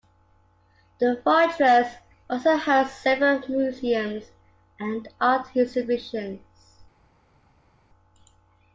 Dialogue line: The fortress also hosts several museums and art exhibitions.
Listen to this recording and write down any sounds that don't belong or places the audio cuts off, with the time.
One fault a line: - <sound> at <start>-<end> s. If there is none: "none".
none